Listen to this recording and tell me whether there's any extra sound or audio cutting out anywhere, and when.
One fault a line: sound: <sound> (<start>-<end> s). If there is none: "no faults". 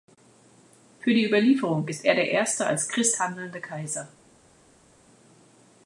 no faults